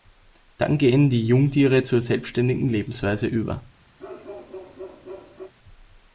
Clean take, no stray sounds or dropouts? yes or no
no